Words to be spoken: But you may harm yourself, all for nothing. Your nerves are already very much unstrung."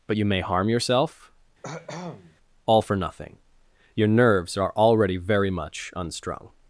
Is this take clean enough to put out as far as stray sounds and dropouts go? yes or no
no